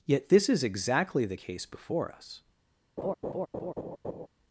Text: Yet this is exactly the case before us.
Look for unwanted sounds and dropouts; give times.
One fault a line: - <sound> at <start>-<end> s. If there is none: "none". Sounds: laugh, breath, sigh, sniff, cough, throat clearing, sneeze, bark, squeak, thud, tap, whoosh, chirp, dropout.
- laugh at 3.0-4.3 s